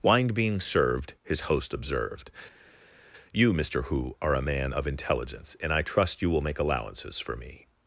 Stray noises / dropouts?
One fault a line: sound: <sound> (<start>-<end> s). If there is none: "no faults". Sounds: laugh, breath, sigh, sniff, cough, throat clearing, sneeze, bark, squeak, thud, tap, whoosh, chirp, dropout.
no faults